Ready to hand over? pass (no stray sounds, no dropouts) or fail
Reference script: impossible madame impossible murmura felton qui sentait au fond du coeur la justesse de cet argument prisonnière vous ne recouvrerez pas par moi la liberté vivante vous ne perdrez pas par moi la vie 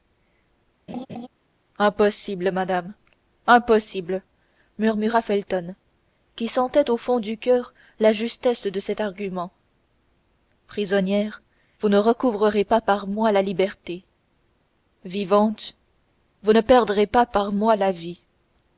fail